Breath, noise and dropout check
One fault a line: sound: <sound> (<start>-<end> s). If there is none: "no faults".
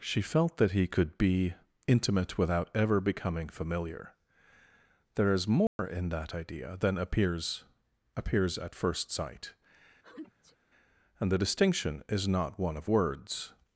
sound: dropout (5.7-5.8 s)
sound: sneeze (10.0-10.6 s)